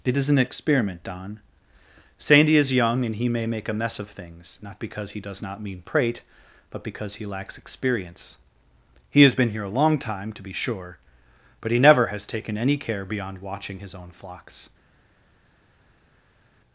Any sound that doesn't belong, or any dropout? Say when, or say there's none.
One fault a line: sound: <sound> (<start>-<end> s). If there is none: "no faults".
no faults